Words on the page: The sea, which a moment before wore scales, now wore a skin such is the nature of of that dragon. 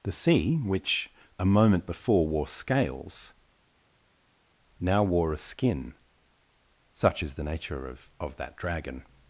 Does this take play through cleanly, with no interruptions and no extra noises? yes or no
yes